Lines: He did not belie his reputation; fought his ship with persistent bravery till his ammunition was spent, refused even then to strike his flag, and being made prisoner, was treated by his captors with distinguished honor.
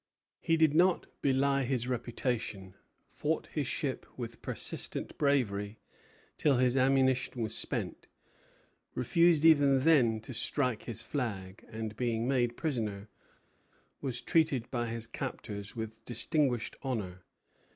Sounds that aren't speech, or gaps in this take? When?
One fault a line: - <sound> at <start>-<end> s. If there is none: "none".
none